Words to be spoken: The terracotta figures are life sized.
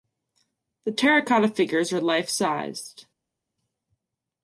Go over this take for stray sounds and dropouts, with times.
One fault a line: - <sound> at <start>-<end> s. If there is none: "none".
none